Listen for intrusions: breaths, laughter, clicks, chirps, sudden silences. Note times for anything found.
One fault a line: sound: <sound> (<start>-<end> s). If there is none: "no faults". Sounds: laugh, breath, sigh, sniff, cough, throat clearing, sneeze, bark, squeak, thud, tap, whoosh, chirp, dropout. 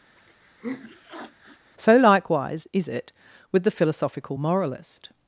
sound: sniff (0.1-1.7 s)